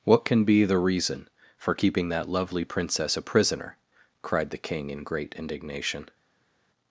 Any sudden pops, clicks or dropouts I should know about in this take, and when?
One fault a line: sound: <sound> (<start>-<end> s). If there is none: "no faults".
no faults